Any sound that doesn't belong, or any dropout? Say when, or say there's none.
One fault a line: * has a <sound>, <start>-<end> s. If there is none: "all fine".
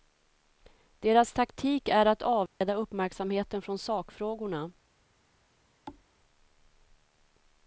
* has a dropout, 2.5-2.6 s
* has a thud, 5.9-6.1 s